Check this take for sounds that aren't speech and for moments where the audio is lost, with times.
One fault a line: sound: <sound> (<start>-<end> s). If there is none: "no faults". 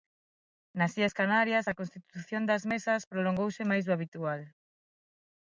no faults